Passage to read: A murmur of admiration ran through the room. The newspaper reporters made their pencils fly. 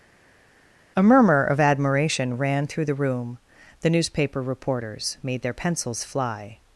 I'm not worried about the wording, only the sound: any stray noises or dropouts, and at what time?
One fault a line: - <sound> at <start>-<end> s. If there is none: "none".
none